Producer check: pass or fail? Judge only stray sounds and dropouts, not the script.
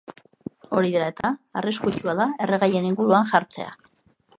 fail